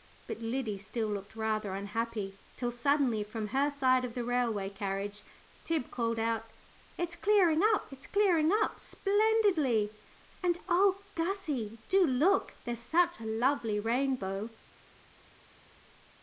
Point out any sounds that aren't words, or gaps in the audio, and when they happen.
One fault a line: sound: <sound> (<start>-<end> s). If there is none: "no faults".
no faults